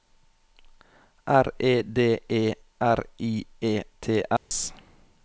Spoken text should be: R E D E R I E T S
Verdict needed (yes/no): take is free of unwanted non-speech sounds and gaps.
no